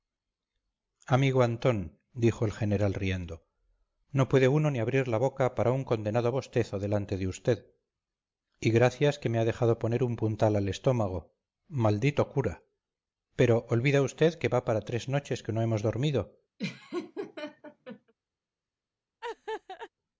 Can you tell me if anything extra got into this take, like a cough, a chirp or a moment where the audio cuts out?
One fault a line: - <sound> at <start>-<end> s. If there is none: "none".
- laugh at 16.6-18.1 s
- laugh at 19.2-19.9 s